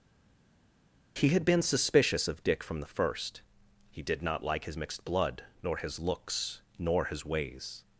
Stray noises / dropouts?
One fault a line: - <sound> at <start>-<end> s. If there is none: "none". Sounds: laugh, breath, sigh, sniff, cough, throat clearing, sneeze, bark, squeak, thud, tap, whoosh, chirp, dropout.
none